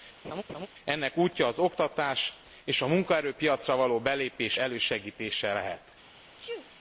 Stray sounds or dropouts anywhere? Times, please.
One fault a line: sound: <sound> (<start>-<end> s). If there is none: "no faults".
sound: laugh (0.2-0.7 s)
sound: sneeze (6.4-6.7 s)